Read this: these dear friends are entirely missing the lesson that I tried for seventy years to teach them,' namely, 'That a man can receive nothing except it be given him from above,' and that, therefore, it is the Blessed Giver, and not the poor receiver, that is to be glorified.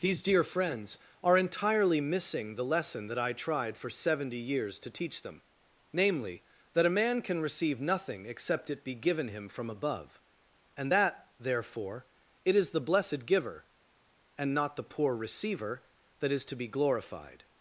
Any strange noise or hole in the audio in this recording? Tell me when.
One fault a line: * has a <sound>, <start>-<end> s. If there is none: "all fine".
all fine